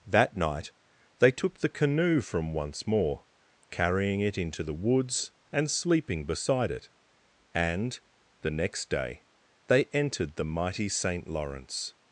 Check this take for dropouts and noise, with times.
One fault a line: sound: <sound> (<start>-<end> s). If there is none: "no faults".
no faults